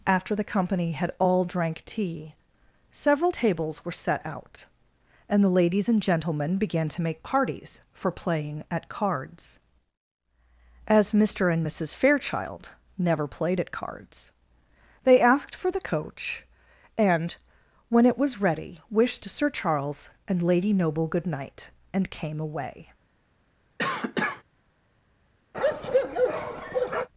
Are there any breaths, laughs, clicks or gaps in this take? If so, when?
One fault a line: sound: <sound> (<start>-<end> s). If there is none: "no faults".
sound: cough (23.8-24.4 s)
sound: bark (25.5-27.1 s)